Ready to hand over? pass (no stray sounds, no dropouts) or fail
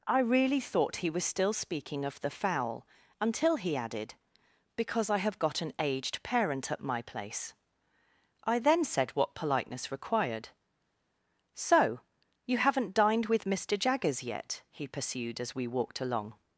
pass